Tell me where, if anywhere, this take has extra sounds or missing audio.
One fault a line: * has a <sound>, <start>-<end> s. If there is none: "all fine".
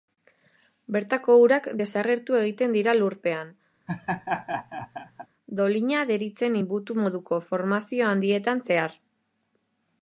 * has a laugh, 3.9-5.3 s